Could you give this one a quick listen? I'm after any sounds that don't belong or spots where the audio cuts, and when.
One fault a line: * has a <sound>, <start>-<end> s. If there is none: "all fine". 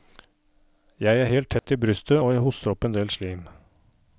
* has a dropout, 1.6-1.6 s